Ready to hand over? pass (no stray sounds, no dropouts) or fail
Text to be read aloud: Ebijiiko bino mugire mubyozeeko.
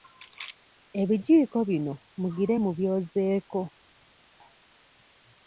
pass